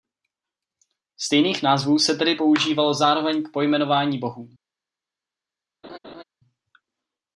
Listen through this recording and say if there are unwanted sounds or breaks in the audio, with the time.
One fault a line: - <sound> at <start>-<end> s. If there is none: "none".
- laugh at 5.8-6.2 s